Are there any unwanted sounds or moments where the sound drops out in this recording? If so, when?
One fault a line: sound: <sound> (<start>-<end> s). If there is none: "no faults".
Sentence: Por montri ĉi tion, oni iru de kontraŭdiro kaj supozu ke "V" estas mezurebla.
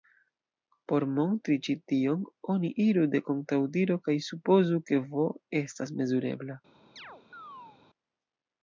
sound: chirp (7.0-7.8 s)